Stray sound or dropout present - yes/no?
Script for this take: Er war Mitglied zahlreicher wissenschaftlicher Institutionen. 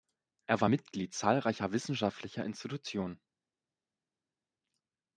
no